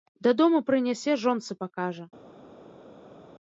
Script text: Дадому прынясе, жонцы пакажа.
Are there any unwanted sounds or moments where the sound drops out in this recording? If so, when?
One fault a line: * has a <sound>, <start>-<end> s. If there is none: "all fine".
all fine